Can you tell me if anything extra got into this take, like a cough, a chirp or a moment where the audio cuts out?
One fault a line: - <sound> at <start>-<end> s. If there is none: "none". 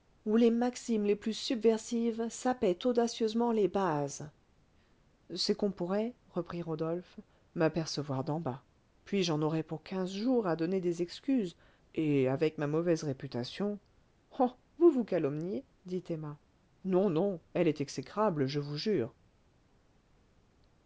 none